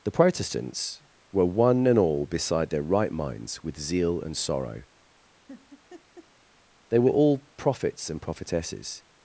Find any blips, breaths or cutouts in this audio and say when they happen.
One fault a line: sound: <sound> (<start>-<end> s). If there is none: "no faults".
sound: laugh (5.5-6.3 s)